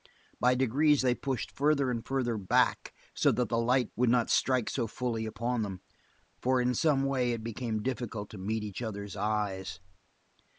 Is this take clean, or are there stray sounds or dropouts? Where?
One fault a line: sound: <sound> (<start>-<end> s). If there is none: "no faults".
no faults